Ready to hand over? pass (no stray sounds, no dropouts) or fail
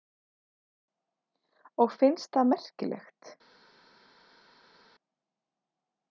pass